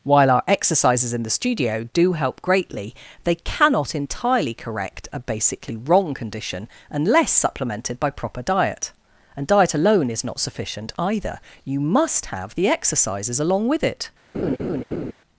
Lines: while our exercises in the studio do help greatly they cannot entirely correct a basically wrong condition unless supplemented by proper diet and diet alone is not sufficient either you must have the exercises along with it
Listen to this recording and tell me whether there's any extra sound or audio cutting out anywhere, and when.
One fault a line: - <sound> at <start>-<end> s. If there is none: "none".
- laugh at 14.3-15.1 s